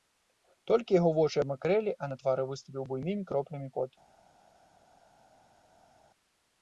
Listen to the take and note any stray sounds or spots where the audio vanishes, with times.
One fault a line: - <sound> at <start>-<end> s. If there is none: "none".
none